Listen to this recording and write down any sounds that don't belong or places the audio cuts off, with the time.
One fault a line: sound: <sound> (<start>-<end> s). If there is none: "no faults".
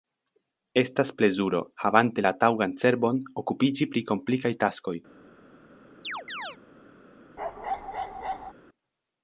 sound: chirp (6.0-6.6 s)
sound: bark (7.4-8.5 s)